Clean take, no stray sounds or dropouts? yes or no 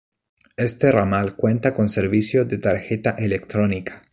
yes